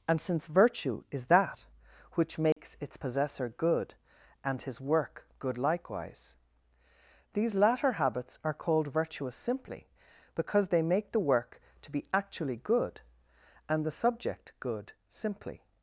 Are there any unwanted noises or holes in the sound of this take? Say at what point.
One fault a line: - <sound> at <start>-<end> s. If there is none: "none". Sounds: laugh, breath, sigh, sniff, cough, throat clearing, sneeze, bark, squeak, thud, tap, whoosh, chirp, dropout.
- dropout at 2.5-2.6 s